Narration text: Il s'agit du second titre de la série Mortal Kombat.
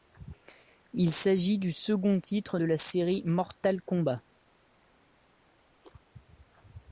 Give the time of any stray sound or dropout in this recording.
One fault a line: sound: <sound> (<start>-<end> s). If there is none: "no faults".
no faults